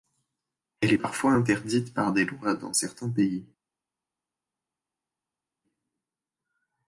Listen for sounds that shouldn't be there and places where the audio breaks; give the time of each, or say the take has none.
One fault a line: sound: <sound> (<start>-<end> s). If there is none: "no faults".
no faults